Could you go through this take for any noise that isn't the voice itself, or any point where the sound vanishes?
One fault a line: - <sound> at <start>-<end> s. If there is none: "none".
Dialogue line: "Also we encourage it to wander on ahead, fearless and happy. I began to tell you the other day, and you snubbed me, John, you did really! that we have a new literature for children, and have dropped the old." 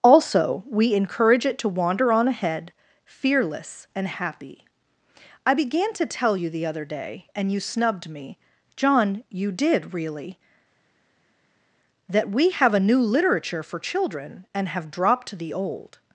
none